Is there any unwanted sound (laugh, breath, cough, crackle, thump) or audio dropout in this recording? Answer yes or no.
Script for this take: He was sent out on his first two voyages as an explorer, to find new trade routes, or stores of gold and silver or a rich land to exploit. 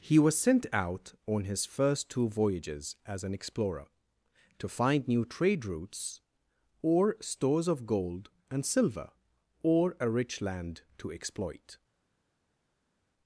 no